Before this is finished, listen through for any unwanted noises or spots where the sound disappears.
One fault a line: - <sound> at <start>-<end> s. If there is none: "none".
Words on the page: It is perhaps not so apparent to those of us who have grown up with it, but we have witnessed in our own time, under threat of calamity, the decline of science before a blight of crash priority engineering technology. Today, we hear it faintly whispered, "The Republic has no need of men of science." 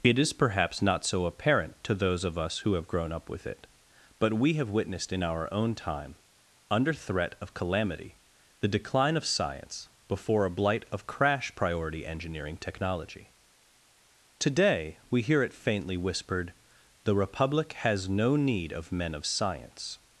none